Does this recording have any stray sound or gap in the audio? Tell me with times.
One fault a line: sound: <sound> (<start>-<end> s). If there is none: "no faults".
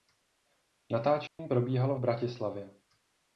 sound: dropout (1.3-1.4 s)